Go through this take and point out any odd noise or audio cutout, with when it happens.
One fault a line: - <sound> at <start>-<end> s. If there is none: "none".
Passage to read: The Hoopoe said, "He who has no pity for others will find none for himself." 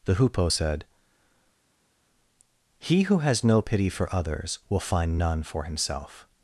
none